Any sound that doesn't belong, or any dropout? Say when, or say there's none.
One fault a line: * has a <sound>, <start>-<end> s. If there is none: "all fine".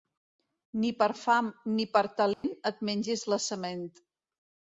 * has a dropout, 2.3-2.4 s